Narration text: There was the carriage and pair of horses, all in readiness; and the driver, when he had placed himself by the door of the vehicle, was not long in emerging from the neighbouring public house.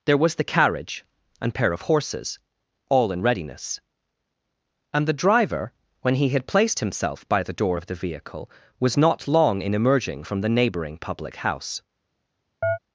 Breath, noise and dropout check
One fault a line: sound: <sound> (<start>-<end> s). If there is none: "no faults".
sound: chirp (12.6-12.8 s)